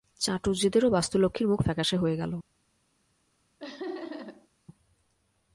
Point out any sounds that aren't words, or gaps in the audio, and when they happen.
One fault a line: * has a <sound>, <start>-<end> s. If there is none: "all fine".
* has a laugh, 3.6-4.5 s